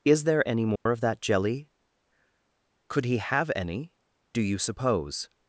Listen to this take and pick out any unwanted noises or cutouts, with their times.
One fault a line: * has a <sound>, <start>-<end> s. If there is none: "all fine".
* has a dropout, 0.8-0.9 s